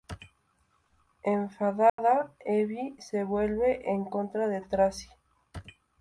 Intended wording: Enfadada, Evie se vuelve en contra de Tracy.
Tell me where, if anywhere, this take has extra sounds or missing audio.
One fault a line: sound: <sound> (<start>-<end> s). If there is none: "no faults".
sound: dropout (1.9-2.0 s)